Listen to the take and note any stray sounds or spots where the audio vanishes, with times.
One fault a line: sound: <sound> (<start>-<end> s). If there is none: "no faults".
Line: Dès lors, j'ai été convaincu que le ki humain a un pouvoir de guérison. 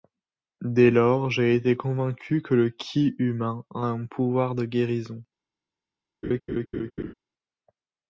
sound: laugh (6.2-7.1 s)